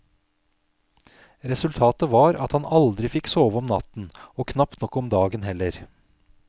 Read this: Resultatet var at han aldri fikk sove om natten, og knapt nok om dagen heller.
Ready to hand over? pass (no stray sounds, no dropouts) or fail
pass